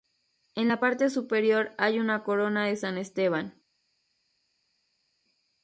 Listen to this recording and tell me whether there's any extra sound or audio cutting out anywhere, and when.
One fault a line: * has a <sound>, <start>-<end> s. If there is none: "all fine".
all fine